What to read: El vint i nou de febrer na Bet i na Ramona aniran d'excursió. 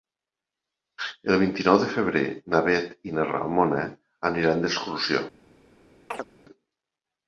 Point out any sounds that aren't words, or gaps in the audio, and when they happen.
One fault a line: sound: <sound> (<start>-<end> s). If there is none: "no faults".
sound: chirp (6.1-6.3 s)